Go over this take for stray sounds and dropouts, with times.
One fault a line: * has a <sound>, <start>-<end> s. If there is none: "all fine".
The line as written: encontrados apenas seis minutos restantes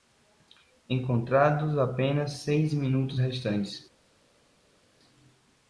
all fine